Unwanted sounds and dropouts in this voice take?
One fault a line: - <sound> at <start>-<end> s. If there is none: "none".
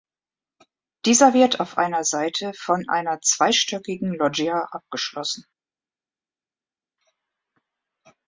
none